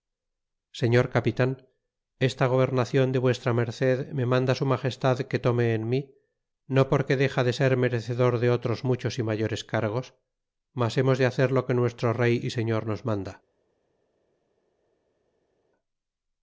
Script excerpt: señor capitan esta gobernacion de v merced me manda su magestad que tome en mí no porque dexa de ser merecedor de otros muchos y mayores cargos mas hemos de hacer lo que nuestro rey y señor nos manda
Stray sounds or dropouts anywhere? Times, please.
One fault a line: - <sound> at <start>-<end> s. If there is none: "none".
none